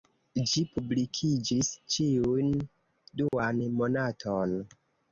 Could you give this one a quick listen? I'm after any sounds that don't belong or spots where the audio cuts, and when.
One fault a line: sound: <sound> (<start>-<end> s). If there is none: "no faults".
sound: dropout (3.3-3.3 s)